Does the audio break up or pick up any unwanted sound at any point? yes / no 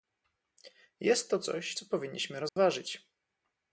yes